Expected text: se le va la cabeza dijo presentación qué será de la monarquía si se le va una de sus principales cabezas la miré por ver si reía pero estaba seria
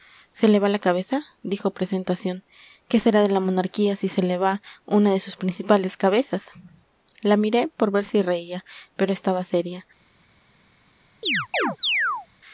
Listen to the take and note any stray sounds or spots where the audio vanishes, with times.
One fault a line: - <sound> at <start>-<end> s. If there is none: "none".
- chirp at 11.2-12.3 s